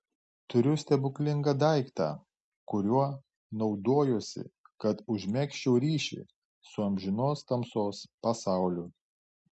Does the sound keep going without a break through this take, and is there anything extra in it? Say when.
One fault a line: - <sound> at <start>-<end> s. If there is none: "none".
none